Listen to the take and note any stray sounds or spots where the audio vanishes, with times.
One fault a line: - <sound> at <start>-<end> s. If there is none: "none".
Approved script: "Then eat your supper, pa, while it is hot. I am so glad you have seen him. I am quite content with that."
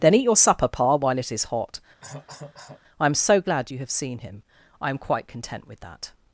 - cough at 2.0-2.8 s